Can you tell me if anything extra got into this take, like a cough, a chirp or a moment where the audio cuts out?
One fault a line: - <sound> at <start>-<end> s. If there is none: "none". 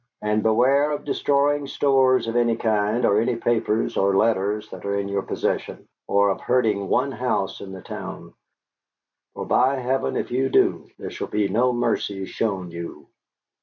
none